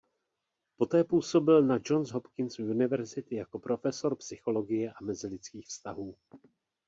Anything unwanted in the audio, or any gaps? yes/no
no